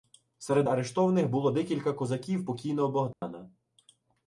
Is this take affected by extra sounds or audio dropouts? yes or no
yes